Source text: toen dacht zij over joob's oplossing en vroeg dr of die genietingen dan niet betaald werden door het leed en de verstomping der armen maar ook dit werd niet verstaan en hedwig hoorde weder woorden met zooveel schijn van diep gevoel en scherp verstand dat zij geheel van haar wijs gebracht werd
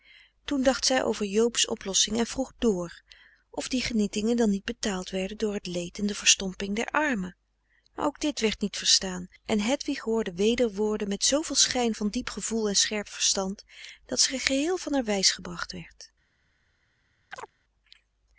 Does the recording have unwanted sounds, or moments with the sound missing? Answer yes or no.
yes